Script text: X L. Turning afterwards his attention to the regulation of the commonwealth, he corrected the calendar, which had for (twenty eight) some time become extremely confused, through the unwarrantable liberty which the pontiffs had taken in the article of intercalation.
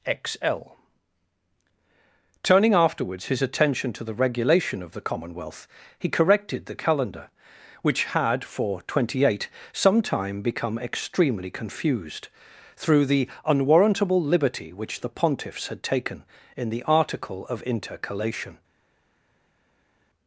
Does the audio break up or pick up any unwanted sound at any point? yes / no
no